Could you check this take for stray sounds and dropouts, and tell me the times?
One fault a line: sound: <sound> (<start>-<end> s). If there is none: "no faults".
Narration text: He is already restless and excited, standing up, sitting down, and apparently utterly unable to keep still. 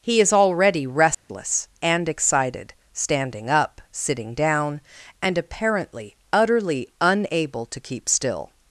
sound: dropout (1.1-1.3 s)